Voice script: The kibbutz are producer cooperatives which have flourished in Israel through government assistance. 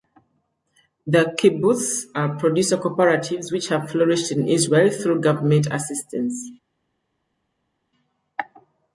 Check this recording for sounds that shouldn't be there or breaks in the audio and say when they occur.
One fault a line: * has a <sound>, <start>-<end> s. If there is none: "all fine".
all fine